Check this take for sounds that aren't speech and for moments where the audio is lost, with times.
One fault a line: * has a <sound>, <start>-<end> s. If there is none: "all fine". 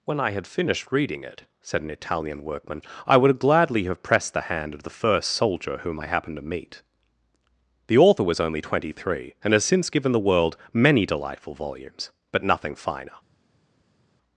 all fine